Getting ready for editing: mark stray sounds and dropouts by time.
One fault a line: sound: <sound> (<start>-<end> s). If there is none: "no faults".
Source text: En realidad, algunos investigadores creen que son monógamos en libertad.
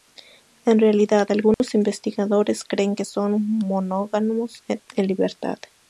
sound: dropout (1.5-1.6 s)